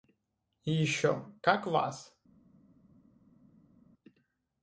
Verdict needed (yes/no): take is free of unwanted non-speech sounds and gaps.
yes